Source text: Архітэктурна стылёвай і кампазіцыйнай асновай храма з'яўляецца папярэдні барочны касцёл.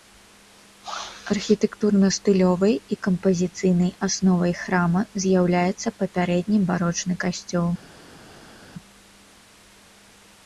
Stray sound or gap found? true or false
false